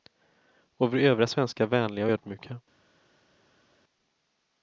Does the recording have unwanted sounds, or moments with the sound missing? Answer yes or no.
no